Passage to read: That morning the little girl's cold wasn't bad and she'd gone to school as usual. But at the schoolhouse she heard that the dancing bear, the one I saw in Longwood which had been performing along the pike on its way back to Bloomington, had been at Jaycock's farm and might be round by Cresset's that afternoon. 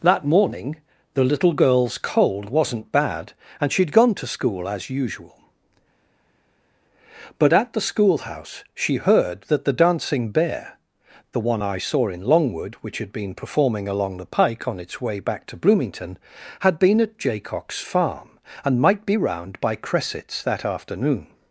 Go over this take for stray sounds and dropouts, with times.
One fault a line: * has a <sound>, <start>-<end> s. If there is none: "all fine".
all fine